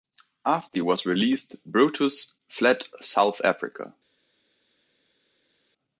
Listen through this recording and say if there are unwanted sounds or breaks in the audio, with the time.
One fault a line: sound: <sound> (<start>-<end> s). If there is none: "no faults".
no faults